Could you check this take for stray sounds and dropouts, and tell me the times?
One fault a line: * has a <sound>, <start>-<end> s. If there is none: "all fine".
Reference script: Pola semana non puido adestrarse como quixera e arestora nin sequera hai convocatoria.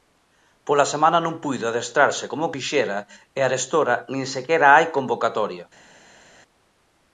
all fine